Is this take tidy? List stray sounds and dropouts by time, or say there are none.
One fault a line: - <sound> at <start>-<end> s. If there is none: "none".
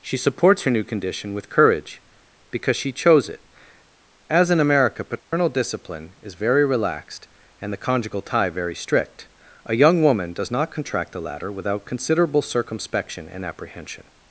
- dropout at 5.2-5.3 s